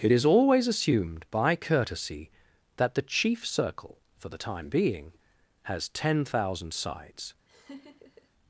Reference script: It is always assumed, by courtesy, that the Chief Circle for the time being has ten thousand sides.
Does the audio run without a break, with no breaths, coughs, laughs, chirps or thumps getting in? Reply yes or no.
no